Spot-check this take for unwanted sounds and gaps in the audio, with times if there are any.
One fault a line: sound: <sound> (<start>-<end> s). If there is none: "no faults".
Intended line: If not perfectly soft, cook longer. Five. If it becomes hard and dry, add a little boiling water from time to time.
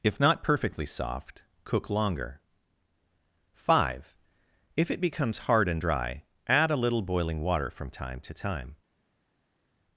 no faults